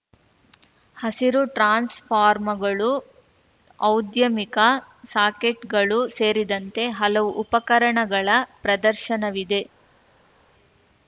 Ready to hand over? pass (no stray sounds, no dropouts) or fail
pass